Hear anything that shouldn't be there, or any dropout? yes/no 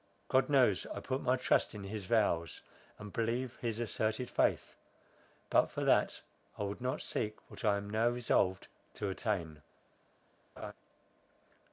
yes